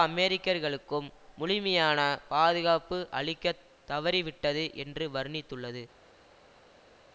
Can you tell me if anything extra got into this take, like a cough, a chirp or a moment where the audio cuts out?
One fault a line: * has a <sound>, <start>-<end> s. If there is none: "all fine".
all fine